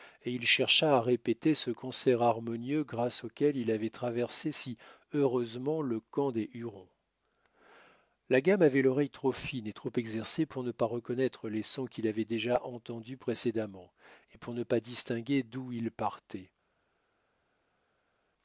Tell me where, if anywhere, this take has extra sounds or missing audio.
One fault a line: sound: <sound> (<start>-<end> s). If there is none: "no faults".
no faults